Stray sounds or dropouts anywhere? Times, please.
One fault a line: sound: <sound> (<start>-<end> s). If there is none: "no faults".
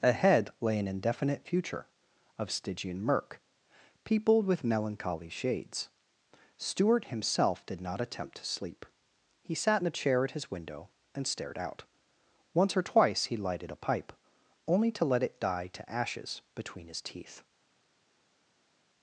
no faults